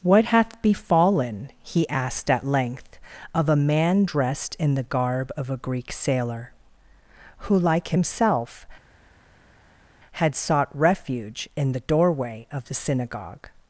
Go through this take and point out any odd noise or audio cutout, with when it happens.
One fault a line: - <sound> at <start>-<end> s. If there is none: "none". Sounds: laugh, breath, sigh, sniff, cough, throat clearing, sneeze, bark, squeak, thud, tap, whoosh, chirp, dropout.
none